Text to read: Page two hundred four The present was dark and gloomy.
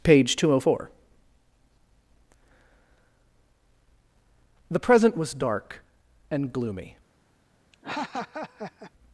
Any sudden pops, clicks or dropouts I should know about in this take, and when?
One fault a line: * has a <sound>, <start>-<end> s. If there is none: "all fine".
* has a laugh, 7.7-8.9 s